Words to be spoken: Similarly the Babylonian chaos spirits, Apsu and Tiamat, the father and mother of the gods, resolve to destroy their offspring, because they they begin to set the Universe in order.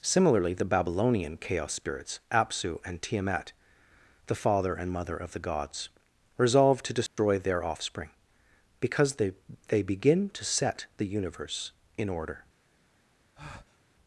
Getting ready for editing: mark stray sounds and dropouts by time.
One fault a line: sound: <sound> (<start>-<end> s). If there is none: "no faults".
sound: dropout (7.1-7.2 s)
sound: breath (13.4-13.8 s)